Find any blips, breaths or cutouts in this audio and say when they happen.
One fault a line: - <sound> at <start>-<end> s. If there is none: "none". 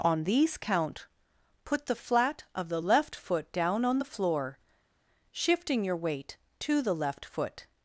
none